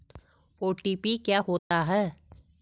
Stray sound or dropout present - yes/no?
yes